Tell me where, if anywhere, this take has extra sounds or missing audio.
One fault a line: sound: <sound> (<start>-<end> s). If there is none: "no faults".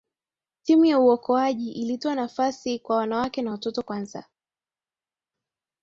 no faults